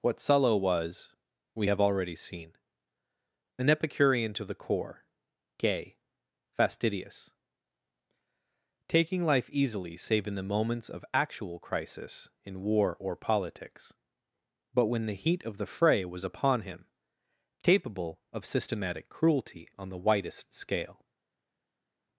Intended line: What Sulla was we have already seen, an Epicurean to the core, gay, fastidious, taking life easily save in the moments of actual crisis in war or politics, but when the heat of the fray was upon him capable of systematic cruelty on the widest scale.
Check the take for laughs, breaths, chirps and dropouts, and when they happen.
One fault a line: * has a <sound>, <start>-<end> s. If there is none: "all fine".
all fine